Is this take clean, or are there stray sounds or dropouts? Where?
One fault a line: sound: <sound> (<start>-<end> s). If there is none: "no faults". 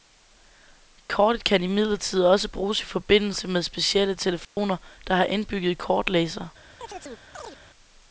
sound: dropout (4.4-4.6 s)
sound: chirp (6.8-7.6 s)